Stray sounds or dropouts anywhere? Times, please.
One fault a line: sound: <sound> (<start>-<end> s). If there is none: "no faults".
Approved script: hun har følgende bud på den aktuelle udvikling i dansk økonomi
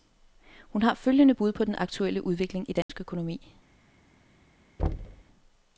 sound: dropout (2.8-2.9 s)
sound: thud (4.8-5.2 s)